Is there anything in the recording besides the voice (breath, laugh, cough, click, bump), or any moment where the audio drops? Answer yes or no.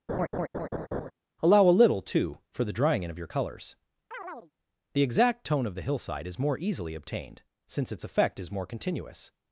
yes